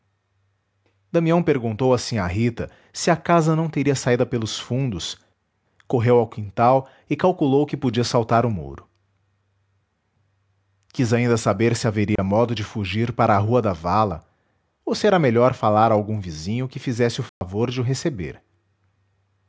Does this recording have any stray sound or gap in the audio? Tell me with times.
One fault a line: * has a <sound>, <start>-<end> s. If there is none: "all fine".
* has a dropout, 12.2-12.2 s
* has a dropout, 17.3-17.4 s